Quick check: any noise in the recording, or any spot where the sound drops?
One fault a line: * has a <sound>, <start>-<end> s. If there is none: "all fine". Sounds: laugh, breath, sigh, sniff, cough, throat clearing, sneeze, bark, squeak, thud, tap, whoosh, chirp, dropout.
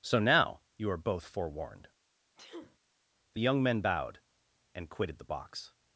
* has a sneeze, 2.4-2.8 s